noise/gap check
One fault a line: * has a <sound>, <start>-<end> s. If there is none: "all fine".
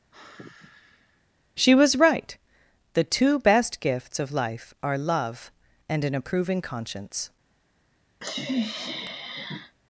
* has a sigh, 0.1-1.2 s
* has a sniff, 8.2-9.8 s